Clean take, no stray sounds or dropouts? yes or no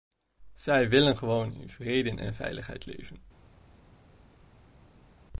yes